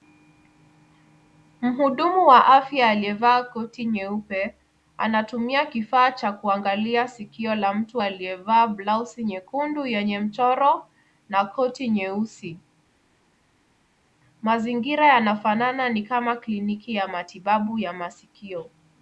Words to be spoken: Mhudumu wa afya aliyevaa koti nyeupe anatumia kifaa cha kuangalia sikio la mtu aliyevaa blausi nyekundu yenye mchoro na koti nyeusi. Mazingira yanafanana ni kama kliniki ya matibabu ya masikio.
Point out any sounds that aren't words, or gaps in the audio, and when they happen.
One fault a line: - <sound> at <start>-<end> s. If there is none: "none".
none